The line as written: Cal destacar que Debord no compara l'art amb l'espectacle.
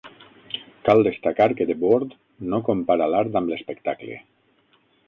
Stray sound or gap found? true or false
false